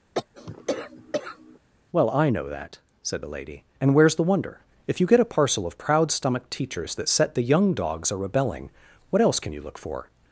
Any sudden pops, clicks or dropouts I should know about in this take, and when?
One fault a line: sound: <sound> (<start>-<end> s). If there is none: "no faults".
sound: cough (0.1-1.6 s)